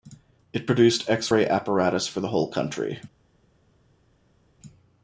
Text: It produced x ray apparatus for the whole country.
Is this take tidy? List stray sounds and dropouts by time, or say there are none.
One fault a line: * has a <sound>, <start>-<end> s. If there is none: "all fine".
all fine